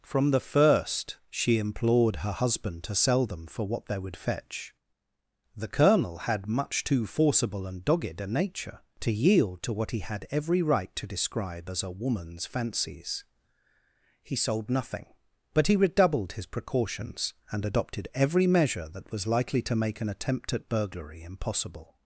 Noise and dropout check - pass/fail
pass